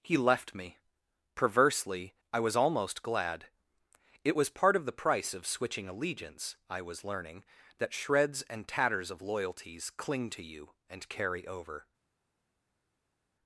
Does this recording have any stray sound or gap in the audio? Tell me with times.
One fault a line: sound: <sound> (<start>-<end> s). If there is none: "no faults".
no faults